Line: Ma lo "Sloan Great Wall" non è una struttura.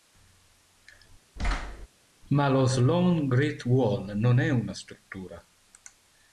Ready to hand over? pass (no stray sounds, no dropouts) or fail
fail